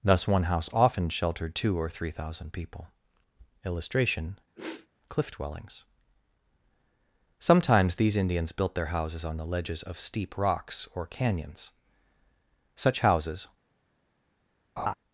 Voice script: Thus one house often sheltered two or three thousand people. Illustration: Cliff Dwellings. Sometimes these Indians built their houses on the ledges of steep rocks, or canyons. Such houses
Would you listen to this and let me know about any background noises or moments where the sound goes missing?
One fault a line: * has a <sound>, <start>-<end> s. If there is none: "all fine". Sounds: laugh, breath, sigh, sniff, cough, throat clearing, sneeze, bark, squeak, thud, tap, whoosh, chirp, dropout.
* has a sniff, 4.5-4.9 s
* has a laugh, 14.8-14.9 s